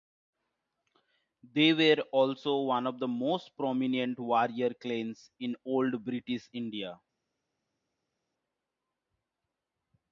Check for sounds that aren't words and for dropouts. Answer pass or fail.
pass